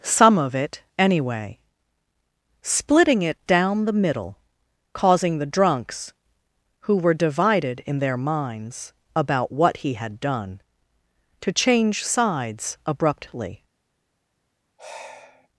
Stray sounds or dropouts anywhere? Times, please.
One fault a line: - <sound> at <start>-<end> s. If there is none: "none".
- sigh at 14.8-15.5 s